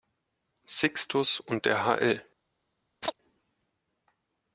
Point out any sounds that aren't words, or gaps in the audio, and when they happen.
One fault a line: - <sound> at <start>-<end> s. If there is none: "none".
- chirp at 3.0-3.2 s